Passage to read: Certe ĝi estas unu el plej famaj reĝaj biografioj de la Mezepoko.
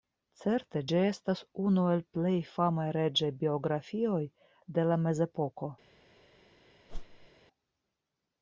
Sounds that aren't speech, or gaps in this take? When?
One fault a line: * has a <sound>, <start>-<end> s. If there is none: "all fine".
* has a whoosh, 6.9-7.3 s